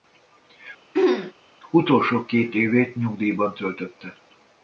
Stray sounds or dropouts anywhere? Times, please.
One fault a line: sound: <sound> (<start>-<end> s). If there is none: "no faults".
sound: throat clearing (0.9-1.3 s)